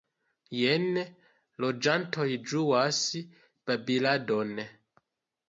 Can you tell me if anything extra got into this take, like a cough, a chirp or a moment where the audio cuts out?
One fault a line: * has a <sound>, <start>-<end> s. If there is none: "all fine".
all fine